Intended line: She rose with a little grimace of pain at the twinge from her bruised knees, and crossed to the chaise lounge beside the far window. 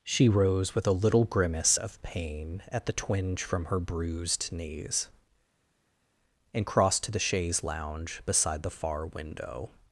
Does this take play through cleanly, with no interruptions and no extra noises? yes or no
yes